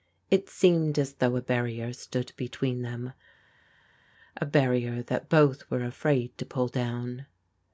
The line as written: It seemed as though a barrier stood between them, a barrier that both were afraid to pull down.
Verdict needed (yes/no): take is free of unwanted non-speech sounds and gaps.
yes